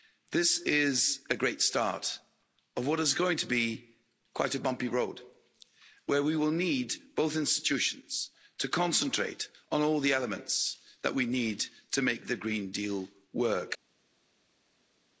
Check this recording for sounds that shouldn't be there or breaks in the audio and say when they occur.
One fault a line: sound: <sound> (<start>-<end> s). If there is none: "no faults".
no faults